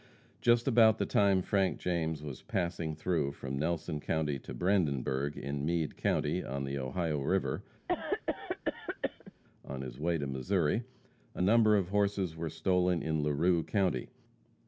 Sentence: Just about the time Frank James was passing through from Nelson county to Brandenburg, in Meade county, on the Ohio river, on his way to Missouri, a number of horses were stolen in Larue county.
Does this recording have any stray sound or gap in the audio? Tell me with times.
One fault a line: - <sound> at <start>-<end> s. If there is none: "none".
- cough at 7.9-9.3 s